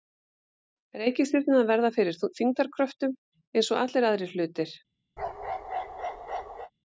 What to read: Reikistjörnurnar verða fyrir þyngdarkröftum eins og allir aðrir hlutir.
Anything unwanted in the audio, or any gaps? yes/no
yes